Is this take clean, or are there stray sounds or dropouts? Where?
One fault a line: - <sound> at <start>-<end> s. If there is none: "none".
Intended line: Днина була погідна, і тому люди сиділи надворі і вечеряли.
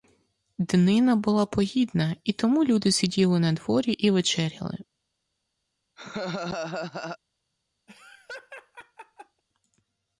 - laugh at 6.0-7.2 s
- laugh at 7.9-9.4 s